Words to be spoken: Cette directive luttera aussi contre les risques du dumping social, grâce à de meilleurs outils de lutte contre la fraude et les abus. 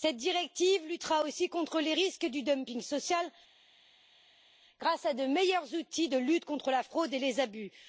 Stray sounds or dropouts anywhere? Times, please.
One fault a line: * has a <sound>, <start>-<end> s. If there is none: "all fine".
all fine